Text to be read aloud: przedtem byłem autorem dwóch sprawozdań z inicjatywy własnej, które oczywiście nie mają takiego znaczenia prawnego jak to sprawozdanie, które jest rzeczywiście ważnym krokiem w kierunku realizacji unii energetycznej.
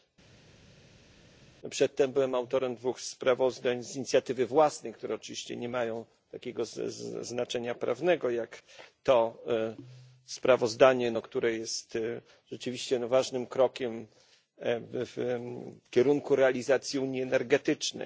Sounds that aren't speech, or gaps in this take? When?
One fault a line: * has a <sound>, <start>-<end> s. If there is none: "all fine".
all fine